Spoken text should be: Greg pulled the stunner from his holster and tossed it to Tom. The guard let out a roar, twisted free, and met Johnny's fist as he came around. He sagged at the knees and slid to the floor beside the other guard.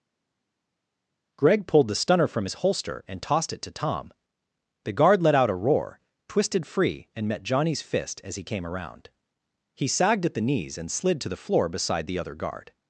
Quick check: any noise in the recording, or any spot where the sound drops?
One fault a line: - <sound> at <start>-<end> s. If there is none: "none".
none